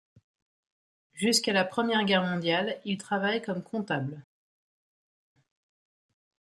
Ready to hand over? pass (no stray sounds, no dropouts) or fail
pass